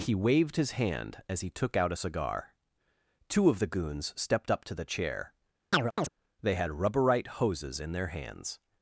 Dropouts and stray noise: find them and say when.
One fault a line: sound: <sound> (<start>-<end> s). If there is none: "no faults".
sound: chirp (5.7-6.1 s)